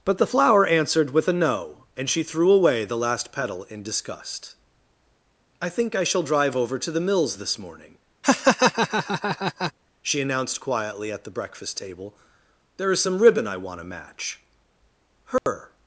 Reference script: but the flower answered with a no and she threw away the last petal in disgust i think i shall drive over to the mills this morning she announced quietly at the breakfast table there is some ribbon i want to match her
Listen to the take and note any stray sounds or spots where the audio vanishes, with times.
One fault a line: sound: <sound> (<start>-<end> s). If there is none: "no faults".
sound: laugh (8.2-9.7 s)
sound: dropout (15.4-15.5 s)